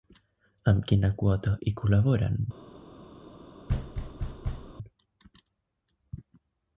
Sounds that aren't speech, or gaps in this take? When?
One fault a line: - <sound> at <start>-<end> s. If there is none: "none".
- thud at 3.7-4.7 s